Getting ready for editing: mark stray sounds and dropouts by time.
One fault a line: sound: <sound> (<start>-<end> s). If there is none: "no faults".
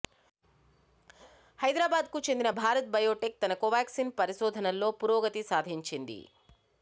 no faults